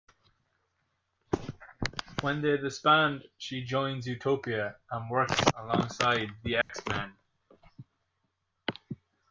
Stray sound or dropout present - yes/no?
yes